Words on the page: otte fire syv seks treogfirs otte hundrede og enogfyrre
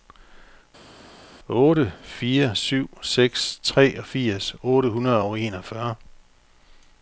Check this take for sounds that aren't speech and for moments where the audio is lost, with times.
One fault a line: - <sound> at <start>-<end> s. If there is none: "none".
none